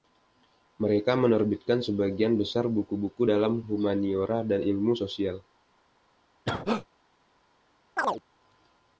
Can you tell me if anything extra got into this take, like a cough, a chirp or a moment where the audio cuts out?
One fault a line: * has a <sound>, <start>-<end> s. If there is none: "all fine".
* has a cough, 6.5-6.9 s
* has a chirp, 8.0-8.2 s